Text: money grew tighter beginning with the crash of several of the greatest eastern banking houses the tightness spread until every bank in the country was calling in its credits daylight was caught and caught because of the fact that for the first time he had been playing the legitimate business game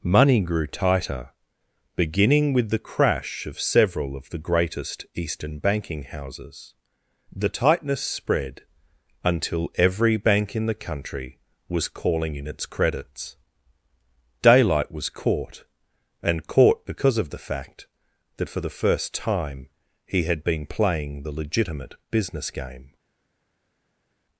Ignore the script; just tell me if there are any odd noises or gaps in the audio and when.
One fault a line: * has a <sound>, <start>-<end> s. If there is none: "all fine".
all fine